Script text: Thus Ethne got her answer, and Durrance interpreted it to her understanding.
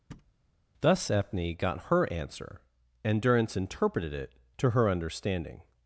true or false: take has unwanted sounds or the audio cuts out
true